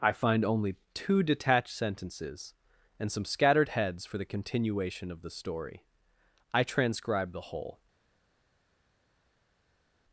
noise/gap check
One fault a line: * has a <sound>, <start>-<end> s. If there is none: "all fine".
all fine